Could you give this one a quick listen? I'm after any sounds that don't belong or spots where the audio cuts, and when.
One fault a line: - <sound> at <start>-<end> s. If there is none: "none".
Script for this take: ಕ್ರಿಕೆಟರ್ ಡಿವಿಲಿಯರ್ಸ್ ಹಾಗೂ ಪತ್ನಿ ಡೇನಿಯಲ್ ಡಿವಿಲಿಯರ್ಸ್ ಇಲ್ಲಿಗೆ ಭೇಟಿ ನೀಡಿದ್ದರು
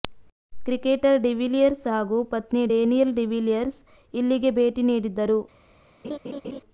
- laugh at 6.0-6.6 s